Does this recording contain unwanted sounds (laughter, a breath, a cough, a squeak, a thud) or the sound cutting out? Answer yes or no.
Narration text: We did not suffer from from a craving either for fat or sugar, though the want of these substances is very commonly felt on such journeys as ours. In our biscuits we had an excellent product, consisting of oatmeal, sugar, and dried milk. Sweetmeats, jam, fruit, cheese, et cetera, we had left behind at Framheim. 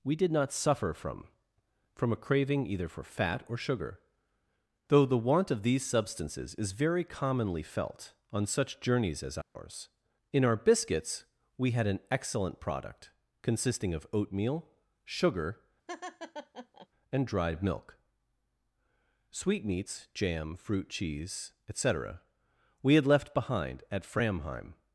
yes